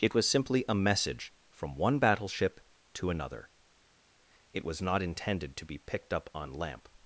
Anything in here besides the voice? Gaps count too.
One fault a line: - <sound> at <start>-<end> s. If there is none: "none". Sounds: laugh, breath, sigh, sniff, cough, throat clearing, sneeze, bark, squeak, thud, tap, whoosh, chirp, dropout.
none